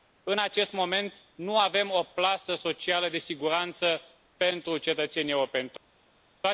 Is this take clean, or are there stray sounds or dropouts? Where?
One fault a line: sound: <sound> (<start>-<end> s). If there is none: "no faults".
no faults